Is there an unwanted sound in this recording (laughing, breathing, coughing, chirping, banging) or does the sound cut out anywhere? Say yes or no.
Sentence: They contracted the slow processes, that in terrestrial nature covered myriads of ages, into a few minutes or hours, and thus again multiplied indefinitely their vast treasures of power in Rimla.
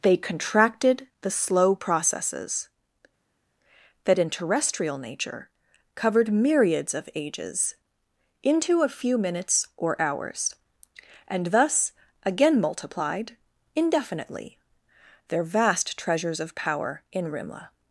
no